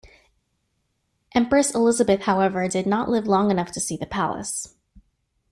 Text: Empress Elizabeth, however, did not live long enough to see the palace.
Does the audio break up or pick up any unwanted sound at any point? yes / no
no